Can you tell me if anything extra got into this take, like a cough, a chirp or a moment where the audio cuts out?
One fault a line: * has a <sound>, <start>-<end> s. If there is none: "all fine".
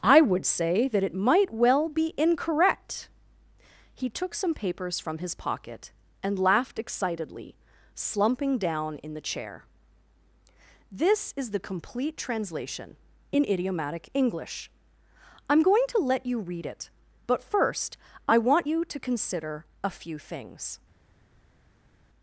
all fine